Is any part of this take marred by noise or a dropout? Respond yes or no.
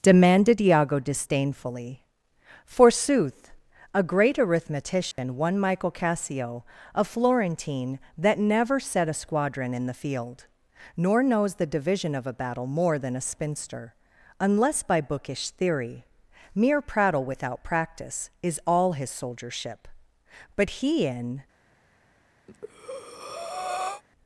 yes